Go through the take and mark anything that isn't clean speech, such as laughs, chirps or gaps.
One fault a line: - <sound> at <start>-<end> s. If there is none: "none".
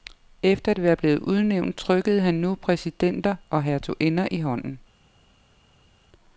none